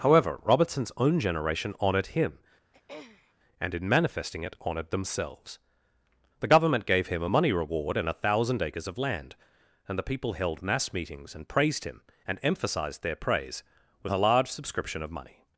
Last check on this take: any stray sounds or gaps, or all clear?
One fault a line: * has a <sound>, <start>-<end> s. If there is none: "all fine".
* has a throat clearing, 2.7-3.3 s